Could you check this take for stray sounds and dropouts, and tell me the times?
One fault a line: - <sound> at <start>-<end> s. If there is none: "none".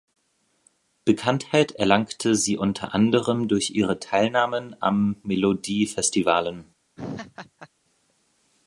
- laugh at 7.0-7.7 s